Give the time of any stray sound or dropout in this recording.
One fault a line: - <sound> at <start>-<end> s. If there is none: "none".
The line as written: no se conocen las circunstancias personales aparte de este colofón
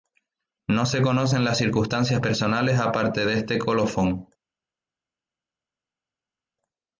none